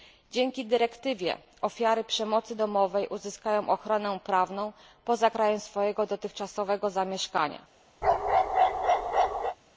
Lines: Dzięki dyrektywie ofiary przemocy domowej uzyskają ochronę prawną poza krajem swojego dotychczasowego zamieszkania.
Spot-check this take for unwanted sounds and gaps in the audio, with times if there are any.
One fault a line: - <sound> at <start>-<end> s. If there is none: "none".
- bark at 8.0-9.6 s